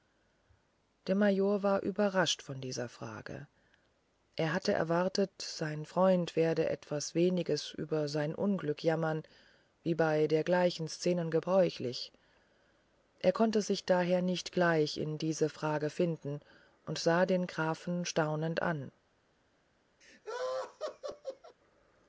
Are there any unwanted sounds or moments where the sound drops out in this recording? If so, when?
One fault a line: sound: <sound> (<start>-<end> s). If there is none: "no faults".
sound: laugh (20.0-21.6 s)